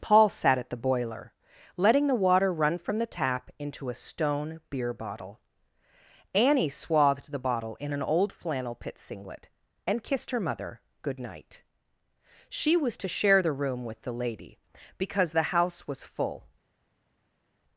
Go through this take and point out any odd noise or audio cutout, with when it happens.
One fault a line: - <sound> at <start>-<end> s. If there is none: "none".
none